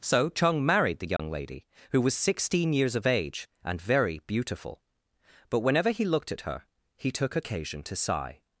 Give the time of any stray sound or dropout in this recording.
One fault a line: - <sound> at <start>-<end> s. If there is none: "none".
- dropout at 1.2-1.2 s